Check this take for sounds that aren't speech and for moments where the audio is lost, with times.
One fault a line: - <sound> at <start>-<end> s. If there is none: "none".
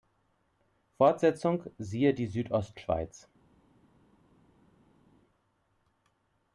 none